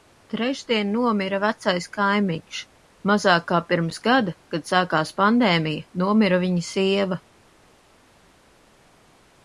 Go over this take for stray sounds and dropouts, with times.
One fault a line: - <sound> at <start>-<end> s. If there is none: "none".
none